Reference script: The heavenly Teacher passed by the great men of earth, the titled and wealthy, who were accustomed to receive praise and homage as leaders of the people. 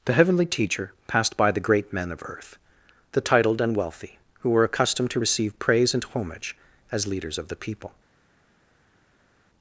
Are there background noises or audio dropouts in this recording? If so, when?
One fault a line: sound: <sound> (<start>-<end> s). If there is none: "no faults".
no faults